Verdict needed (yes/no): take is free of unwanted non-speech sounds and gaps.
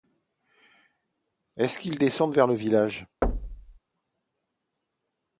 no